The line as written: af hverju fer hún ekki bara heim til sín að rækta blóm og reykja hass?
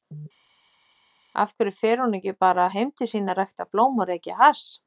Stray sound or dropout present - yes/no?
no